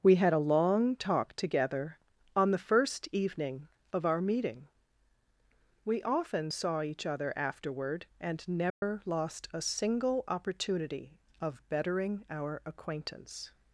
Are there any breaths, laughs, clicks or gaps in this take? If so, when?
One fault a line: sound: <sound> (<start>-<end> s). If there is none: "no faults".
sound: dropout (8.7-8.8 s)